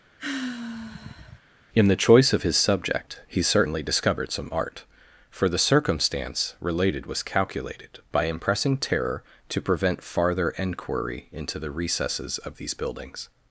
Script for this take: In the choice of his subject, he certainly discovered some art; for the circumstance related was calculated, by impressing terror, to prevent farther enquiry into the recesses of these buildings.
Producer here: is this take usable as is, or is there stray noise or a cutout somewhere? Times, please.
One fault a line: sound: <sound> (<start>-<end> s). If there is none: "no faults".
sound: sigh (0.2-1.4 s)